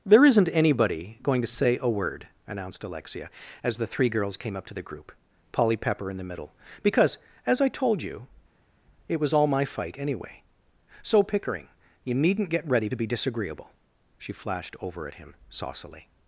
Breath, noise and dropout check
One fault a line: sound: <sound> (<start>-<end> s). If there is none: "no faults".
no faults